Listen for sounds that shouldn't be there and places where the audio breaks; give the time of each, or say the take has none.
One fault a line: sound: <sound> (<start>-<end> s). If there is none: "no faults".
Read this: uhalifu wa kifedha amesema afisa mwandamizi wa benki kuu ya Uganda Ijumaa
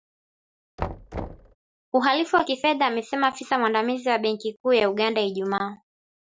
sound: thud (0.8-1.6 s)